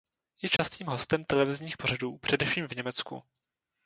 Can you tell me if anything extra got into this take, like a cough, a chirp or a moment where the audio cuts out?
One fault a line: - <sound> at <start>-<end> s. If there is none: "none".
- dropout at 0.6-0.6 s